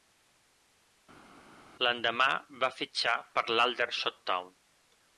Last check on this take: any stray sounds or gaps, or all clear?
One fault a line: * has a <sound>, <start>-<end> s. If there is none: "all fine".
all fine